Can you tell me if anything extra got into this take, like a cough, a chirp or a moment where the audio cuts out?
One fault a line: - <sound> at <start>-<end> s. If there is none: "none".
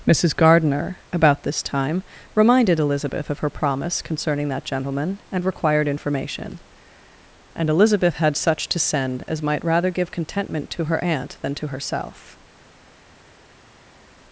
none